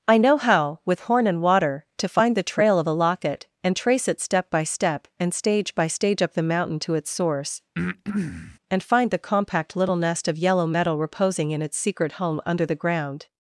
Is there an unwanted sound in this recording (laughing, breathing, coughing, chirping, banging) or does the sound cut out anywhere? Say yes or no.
yes